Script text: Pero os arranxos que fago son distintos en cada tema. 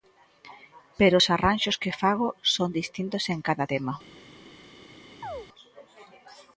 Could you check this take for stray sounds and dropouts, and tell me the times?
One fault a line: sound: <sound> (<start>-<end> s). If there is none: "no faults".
sound: chirp (5.2-5.5 s)